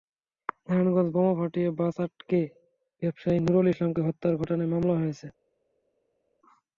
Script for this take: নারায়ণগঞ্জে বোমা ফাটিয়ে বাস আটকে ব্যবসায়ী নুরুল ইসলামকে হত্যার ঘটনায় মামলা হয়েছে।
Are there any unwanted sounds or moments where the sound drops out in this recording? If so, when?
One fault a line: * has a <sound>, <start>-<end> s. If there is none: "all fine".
all fine